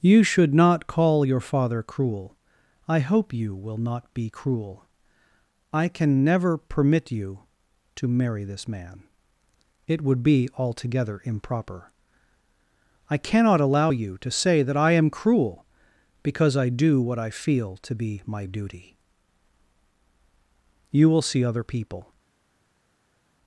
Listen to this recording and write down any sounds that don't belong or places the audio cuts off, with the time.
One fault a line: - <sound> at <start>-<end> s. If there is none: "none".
none